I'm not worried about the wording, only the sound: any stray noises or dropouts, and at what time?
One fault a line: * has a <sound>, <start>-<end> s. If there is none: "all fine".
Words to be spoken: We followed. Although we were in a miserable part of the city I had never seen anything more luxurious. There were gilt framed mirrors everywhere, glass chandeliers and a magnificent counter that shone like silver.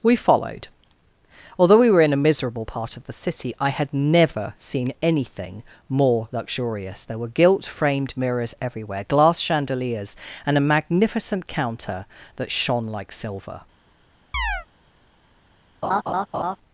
* has a chirp, 14.3-14.7 s
* has a laugh, 15.8-16.6 s